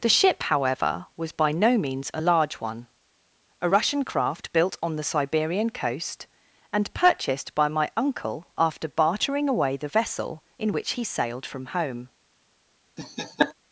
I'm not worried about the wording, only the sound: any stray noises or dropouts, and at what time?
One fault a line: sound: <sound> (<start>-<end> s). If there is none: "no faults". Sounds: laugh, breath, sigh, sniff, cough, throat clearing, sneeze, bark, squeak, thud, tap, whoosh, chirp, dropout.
sound: laugh (13.0-13.5 s)